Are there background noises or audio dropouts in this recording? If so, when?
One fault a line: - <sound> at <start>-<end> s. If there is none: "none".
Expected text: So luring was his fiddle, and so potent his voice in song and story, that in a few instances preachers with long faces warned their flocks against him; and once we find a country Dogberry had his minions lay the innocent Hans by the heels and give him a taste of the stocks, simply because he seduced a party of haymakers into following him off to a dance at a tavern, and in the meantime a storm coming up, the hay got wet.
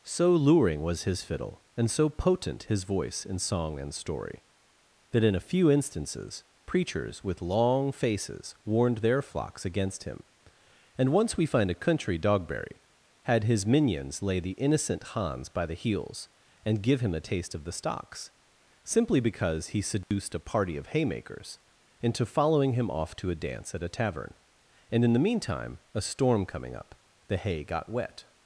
- dropout at 20.0-20.1 s